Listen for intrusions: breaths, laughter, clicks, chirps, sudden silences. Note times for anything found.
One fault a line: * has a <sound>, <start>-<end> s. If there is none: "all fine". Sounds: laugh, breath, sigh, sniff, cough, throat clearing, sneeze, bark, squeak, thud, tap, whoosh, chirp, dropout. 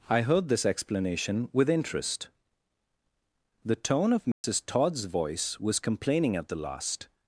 * has a dropout, 4.3-4.4 s